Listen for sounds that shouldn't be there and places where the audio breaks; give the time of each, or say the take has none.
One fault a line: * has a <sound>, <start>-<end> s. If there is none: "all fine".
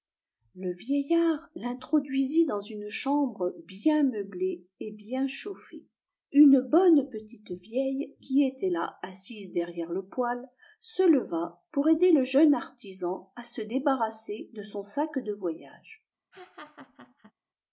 * has a laugh, 16.3-17.3 s